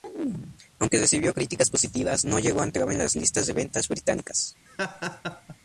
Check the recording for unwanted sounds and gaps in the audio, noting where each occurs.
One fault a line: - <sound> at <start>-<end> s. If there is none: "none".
- laugh at 4.7-5.6 s